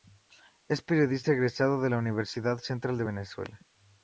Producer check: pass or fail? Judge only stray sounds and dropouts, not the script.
pass